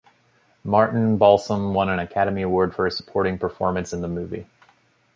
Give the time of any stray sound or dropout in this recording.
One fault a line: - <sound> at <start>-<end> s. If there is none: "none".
none